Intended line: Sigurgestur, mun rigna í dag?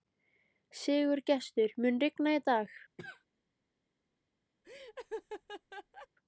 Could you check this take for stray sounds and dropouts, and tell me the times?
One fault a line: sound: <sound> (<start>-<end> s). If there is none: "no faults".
sound: cough (3.0-3.2 s)
sound: laugh (4.6-6.1 s)